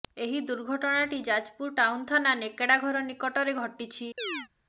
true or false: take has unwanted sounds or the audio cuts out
true